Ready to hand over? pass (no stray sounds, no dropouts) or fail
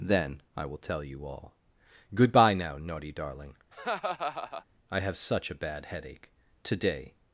fail